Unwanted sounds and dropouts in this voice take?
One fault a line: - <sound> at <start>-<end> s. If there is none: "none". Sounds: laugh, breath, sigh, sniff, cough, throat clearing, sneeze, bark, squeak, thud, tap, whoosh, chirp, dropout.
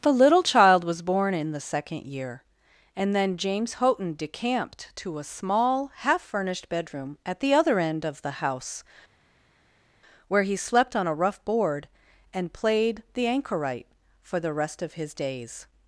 none